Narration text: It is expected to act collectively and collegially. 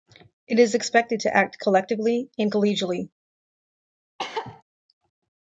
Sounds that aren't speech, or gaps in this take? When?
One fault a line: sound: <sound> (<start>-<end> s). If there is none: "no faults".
sound: cough (4.2-4.6 s)